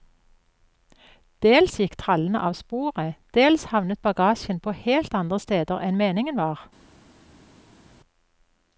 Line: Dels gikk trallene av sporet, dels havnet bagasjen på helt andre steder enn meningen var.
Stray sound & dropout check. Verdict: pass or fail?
pass